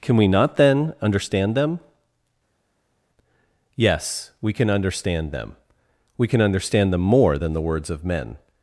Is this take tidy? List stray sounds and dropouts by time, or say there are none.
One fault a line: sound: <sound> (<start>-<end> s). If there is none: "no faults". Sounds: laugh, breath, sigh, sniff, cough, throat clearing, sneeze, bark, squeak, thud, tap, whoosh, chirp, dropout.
no faults